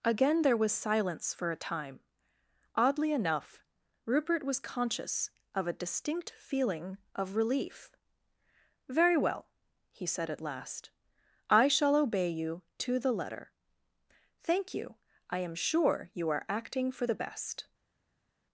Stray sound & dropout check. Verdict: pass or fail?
pass